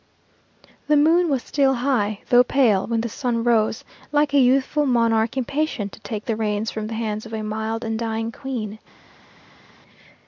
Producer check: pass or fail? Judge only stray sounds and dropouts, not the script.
pass